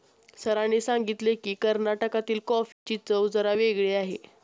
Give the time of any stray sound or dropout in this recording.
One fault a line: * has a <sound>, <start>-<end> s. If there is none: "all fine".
* has a dropout, 2.7-2.9 s